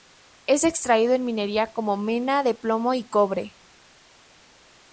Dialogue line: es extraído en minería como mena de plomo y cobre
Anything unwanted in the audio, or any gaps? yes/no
no